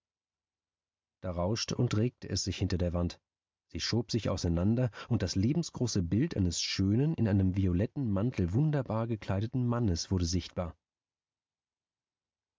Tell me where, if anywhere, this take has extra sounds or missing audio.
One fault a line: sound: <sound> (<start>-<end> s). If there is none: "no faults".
no faults